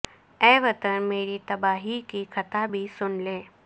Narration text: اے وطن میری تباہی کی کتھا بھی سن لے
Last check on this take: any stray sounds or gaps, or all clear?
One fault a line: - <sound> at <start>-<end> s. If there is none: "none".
none